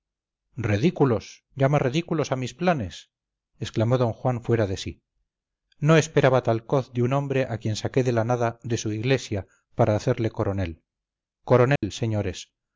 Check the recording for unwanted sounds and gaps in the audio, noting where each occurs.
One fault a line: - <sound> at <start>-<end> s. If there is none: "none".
- dropout at 11.8-11.8 s